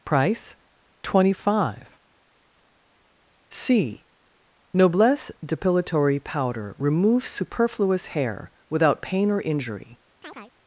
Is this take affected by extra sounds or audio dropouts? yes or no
yes